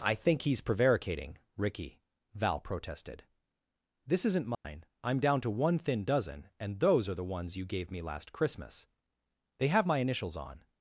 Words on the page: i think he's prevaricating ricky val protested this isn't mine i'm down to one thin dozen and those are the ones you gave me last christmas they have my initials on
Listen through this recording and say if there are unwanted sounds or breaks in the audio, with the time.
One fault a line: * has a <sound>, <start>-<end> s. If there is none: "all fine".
* has a dropout, 4.5-4.6 s